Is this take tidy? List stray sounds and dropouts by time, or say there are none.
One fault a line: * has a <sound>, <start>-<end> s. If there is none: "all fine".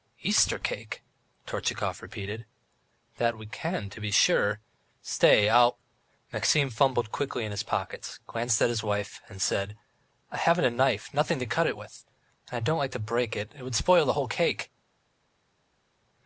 all fine